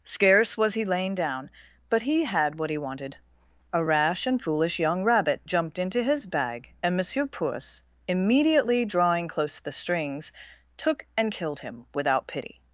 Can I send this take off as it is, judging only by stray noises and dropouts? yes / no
yes